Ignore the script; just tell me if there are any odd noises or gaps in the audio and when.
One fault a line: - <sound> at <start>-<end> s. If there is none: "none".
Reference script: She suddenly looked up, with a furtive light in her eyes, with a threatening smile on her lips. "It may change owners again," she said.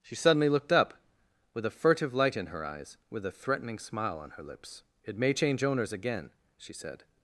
none